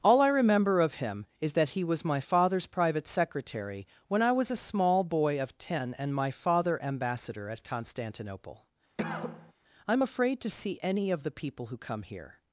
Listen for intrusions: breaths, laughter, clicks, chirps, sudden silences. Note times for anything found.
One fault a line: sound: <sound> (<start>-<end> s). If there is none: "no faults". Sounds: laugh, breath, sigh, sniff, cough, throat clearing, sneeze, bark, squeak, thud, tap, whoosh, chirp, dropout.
sound: cough (9.0-9.5 s)